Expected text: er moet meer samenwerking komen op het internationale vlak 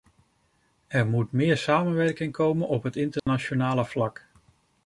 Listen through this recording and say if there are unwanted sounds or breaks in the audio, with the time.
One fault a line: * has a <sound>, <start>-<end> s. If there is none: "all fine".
* has a dropout, 3.2-3.3 s